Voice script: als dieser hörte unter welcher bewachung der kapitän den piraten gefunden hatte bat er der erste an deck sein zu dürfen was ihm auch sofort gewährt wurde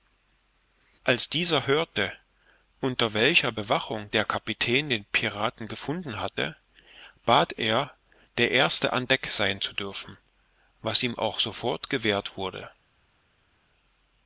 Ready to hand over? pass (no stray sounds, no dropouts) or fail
pass